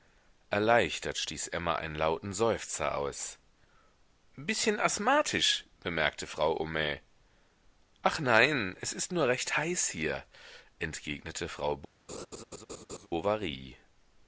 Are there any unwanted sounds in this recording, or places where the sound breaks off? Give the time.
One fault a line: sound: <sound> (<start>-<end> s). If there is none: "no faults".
sound: laugh (12.1-13.1 s)